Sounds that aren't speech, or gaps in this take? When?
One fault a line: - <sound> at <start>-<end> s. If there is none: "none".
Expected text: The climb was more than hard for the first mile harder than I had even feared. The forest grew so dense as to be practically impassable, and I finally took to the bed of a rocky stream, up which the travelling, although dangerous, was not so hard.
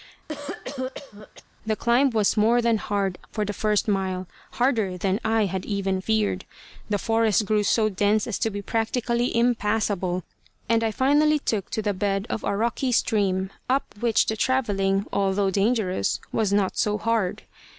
- cough at 0.3-1.4 s